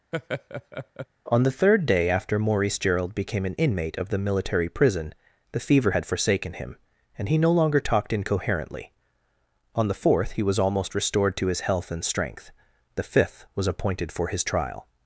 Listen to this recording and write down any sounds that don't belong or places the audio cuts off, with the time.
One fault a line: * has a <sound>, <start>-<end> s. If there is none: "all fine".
* has a laugh, 0.1-1.1 s